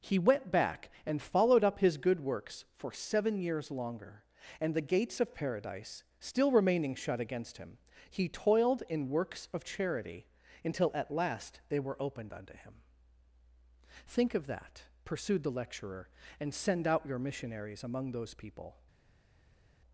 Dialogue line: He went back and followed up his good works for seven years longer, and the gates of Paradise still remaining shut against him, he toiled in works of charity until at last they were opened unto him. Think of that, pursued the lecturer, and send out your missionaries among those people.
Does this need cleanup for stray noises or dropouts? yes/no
no